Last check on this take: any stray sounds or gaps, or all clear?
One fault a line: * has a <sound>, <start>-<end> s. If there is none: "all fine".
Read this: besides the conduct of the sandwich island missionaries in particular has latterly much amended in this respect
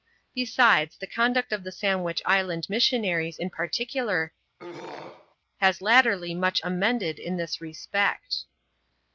* has a throat clearing, 4.6-5.4 s